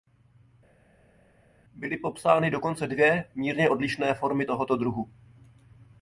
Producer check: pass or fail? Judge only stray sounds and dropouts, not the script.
pass